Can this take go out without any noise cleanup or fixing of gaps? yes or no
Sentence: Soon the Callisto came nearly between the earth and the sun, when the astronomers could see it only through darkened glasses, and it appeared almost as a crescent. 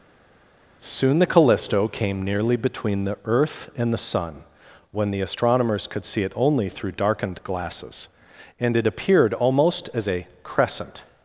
yes